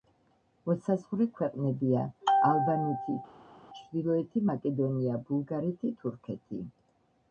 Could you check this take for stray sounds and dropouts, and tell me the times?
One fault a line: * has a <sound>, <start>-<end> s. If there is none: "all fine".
all fine